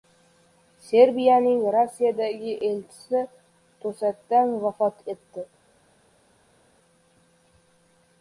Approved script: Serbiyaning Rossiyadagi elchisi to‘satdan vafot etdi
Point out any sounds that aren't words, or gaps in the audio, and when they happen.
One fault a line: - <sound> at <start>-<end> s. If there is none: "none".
none